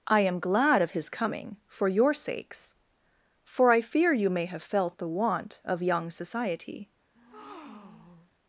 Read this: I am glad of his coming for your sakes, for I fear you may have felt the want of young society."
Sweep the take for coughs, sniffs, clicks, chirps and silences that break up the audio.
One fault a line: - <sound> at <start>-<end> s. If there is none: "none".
- breath at 7.1-8.3 s